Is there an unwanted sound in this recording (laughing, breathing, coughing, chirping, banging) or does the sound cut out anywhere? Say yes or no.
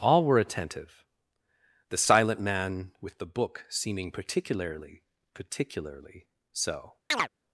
yes